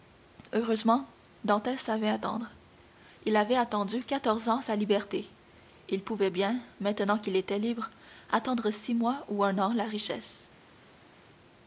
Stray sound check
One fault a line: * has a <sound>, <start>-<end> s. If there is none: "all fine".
all fine